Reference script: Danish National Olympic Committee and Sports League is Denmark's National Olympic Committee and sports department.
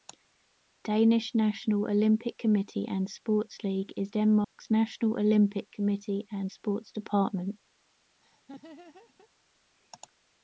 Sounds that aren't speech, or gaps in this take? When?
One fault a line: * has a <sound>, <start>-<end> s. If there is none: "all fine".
* has a dropout, 4.4-4.6 s
* has a laugh, 8.2-9.3 s